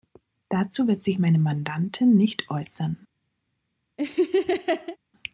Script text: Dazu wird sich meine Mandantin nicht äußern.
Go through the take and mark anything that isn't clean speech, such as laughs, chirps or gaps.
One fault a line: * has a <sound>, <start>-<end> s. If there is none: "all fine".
* has a laugh, 4.0-5.0 s